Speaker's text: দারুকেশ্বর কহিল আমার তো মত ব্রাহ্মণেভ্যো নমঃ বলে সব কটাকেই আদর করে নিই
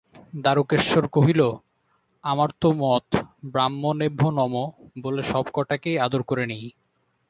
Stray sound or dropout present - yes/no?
no